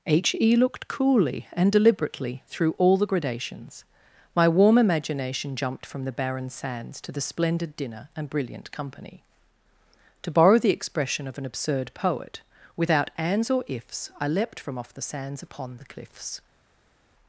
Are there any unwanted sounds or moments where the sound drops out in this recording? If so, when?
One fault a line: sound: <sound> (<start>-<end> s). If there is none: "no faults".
no faults